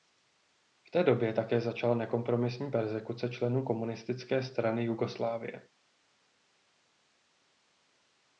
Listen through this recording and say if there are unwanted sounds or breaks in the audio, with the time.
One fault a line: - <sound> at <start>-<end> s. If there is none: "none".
none